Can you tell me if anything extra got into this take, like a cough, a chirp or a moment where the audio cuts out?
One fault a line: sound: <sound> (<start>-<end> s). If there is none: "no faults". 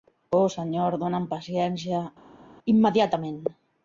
no faults